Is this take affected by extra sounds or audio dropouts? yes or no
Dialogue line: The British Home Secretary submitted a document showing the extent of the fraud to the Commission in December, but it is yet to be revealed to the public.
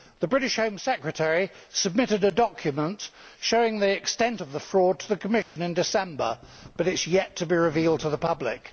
yes